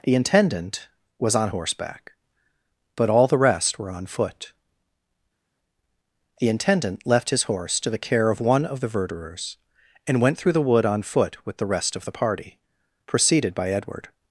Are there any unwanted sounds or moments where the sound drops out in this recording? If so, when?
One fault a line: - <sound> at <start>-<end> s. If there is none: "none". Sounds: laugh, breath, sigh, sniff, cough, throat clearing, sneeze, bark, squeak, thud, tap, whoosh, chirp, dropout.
none